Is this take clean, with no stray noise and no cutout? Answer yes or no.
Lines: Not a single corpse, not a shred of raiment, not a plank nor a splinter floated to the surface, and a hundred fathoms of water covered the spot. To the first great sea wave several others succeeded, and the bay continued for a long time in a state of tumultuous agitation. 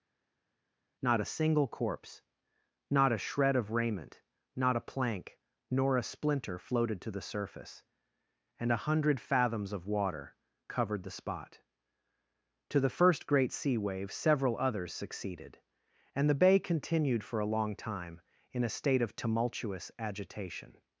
yes